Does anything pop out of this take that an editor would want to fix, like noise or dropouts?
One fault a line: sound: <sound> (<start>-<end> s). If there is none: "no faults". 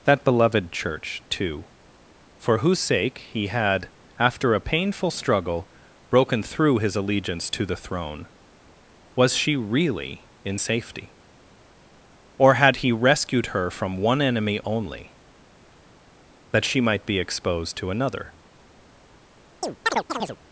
sound: chirp (19.6-20.4 s)